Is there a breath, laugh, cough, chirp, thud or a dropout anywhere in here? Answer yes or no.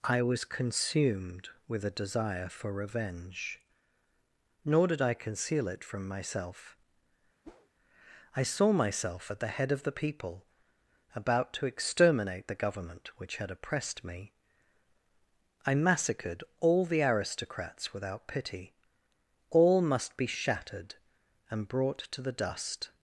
yes